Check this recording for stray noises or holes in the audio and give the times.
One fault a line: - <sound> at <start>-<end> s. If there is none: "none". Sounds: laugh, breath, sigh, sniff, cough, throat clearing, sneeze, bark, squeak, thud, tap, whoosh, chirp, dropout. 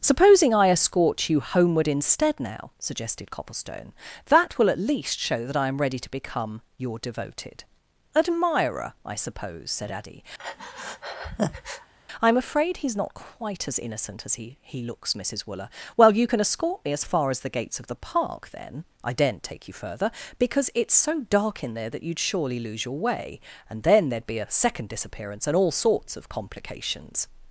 - breath at 10.4-11.9 s